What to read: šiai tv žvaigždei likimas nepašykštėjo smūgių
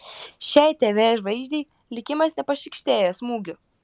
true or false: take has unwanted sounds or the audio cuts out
false